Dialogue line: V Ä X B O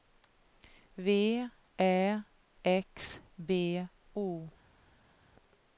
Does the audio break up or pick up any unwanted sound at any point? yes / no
no